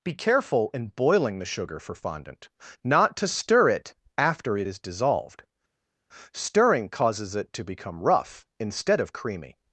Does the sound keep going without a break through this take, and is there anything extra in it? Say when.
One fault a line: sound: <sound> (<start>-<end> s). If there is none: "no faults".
no faults